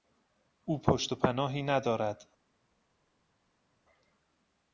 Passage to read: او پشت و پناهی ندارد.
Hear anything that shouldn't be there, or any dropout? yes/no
no